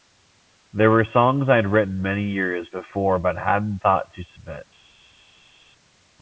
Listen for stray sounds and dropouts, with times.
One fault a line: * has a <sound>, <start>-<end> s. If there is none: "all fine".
all fine